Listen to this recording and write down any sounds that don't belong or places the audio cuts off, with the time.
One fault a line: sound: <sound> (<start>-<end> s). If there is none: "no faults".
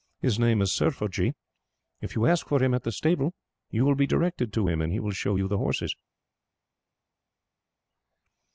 no faults